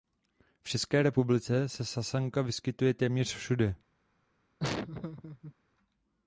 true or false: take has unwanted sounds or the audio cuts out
true